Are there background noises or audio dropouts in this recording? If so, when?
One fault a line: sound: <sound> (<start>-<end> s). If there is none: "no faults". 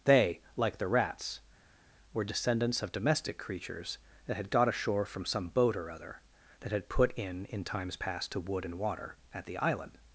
no faults